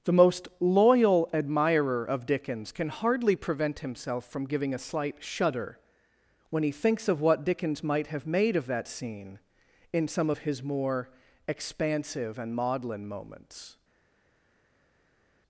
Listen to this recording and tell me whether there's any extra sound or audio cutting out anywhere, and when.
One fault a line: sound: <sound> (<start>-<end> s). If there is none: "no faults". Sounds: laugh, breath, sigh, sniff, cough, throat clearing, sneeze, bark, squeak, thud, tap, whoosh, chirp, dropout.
no faults